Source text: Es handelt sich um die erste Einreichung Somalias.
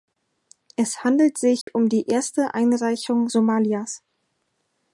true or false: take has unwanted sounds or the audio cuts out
true